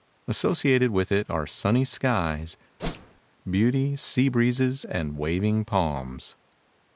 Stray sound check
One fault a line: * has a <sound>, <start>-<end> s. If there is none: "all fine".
* has a whoosh, 2.8-3.2 s